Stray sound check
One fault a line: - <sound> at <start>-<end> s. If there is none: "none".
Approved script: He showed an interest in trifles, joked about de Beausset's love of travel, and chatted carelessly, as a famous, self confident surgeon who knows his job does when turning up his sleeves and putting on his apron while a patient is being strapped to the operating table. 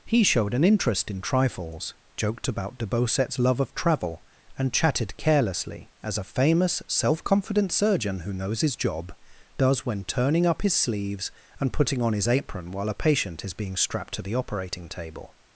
none